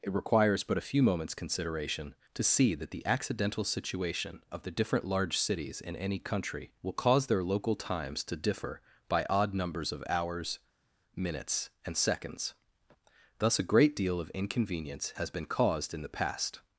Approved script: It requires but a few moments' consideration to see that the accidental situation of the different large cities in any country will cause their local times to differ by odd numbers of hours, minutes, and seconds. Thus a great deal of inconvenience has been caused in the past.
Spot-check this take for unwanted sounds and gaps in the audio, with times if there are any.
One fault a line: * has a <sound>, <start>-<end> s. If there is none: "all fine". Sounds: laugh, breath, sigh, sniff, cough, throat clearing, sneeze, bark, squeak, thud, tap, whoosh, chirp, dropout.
all fine